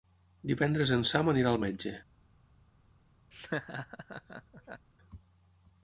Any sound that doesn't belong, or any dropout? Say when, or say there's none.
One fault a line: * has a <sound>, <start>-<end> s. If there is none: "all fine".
* has a laugh, 3.3-4.9 s